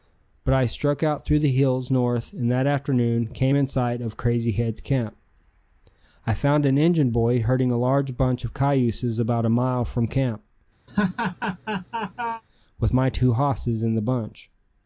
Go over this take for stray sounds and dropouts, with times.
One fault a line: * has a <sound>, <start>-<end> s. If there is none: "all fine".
* has a laugh, 10.9-12.4 s